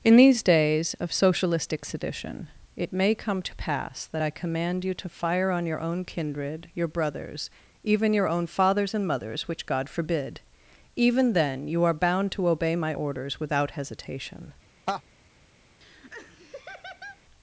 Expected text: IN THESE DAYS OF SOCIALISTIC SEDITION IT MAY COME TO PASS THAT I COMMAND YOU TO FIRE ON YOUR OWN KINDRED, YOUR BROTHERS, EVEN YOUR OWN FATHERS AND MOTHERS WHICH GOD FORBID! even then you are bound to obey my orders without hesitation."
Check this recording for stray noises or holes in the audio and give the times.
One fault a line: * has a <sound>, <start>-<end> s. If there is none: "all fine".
* has a laugh, 14.9-15.0 s
* has a laugh, 15.8-17.2 s